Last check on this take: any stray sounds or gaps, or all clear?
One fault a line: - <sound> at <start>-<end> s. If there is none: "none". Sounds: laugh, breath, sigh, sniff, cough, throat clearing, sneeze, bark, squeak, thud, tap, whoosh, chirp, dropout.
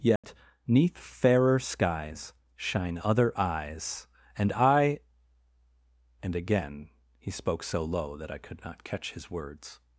- dropout at 0.2-0.2 s